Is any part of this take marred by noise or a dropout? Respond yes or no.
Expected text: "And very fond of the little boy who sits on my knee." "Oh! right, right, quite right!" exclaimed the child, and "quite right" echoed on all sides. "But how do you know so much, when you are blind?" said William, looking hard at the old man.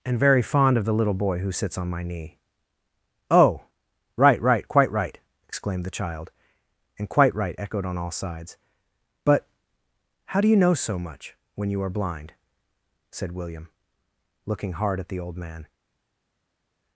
no